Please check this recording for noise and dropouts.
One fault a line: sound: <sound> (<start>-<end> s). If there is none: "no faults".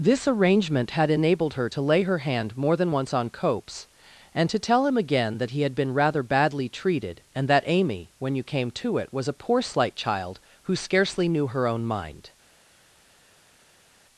no faults